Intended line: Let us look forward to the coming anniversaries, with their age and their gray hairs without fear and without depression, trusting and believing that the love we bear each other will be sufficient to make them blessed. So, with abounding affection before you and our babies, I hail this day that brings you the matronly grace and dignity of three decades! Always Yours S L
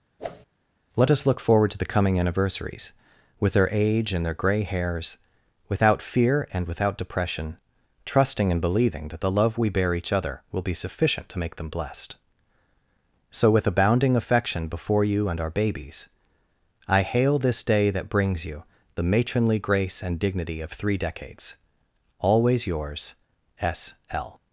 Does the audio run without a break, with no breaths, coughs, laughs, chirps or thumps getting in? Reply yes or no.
no